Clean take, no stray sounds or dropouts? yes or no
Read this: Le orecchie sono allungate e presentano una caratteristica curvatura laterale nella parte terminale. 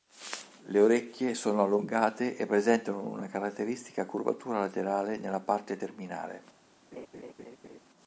no